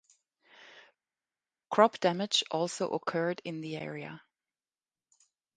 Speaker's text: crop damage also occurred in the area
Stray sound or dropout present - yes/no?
no